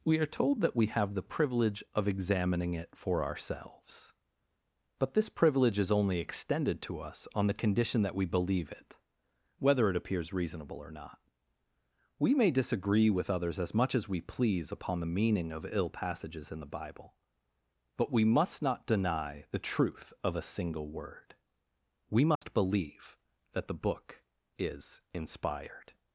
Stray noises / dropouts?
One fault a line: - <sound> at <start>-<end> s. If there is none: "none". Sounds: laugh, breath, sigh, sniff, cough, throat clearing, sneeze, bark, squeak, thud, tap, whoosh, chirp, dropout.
- dropout at 22.4-22.4 s